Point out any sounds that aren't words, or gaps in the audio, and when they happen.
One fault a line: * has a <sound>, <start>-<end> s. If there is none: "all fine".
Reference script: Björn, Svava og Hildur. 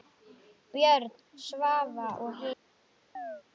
* has a chirp, 3.1-3.4 s